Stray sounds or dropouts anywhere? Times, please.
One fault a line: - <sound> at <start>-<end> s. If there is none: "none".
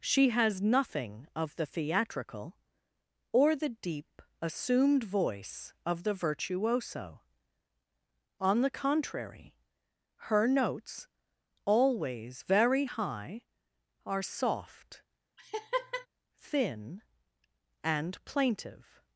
- laugh at 15.4-16.1 s